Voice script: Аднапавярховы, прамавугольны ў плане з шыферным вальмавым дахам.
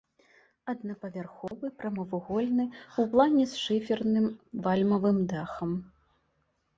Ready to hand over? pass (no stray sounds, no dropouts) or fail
fail